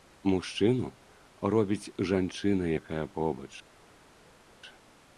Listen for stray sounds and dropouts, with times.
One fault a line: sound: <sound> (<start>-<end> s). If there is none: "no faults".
no faults